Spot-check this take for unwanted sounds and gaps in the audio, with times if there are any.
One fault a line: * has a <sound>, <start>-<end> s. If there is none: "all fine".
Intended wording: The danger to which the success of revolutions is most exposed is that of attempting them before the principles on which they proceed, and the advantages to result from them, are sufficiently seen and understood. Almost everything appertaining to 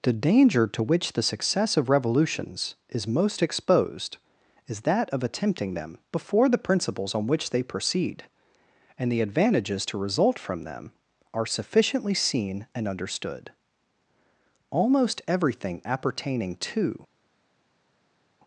all fine